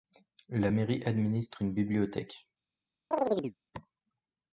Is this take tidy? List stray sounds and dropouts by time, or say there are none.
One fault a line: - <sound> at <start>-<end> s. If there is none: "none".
- chirp at 3.1-3.6 s